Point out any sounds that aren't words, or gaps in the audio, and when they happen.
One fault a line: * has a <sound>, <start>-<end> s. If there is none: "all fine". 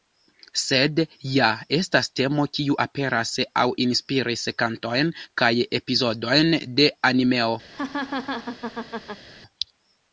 * has a laugh, 7.7-9.3 s